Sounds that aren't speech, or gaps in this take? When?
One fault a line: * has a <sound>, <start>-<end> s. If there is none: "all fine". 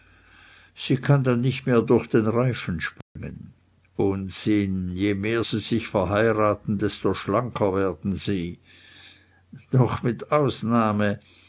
* has a dropout, 3.0-3.2 s